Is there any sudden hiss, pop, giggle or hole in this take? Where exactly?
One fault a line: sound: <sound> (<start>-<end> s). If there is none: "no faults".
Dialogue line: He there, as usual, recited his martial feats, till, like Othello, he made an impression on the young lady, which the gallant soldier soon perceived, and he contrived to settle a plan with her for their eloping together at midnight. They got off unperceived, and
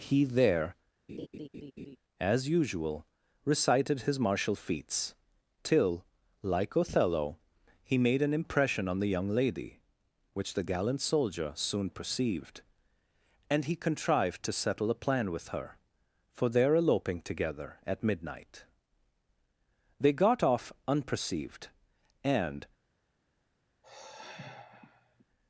sound: laugh (1.1-2.0 s)
sound: sigh (23.8-25.2 s)